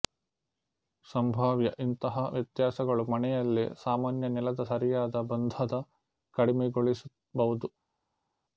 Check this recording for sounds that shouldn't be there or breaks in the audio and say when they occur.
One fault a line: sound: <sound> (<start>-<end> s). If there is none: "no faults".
no faults